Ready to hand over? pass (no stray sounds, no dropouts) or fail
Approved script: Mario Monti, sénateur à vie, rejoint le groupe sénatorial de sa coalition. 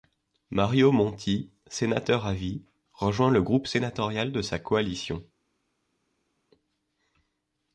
pass